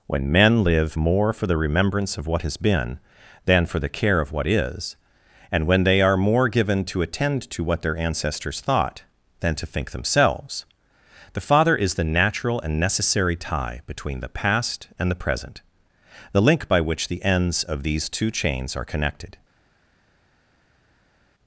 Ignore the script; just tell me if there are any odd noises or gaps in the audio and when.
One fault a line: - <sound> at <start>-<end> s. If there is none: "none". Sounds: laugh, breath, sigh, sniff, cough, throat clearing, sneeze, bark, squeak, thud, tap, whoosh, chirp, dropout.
none